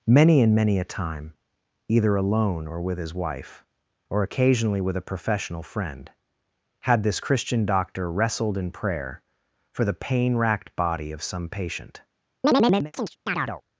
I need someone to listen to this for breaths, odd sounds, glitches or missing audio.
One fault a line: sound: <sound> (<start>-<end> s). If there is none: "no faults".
sound: chirp (12.4-13.6 s)